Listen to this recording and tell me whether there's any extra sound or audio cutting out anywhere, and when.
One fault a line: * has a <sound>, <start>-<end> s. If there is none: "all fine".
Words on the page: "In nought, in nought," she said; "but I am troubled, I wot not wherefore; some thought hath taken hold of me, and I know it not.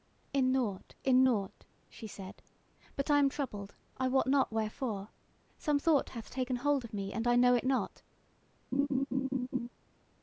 * has a laugh, 8.7-9.7 s